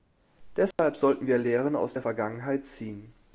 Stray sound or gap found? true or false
true